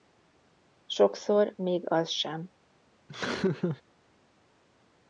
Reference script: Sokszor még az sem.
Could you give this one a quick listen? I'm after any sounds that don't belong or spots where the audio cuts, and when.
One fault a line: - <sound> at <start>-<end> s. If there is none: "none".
- laugh at 3.1-3.8 s